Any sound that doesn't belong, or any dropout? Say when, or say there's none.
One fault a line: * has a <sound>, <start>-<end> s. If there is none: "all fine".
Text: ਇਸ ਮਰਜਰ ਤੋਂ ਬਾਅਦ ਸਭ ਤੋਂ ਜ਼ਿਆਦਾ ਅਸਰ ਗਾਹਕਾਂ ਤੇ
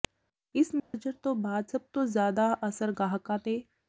* has a dropout, 0.8-0.9 s